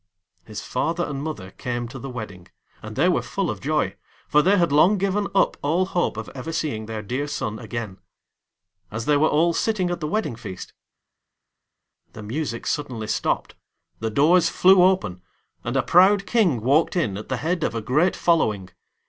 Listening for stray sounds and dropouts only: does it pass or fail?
pass